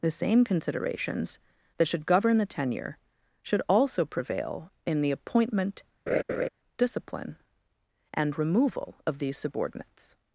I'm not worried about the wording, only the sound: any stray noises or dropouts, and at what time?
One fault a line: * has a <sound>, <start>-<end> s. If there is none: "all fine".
* has a laugh, 6.1-6.5 s